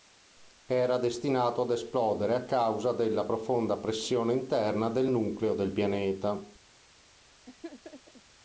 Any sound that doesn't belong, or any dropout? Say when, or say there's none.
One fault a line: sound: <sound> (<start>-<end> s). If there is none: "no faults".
sound: laugh (7.4-8.2 s)